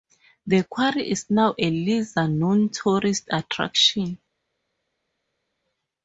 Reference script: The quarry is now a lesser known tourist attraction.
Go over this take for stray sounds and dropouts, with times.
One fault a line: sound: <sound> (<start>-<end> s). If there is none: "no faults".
no faults